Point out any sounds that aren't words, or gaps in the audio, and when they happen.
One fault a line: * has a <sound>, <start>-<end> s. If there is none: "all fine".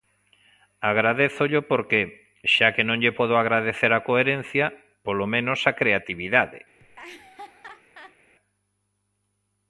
* has a laugh, 6.8-8.2 s